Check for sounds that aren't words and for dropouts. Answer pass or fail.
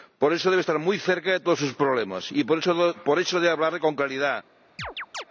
fail